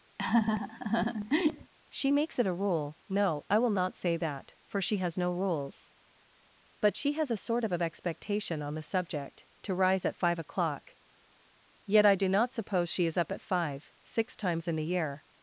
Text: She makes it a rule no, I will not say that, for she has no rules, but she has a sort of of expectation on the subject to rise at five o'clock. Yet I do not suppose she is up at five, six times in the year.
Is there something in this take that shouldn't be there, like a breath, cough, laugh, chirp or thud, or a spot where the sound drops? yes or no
yes